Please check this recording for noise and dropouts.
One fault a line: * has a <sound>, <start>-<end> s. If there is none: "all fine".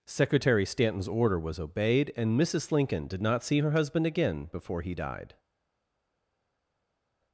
all fine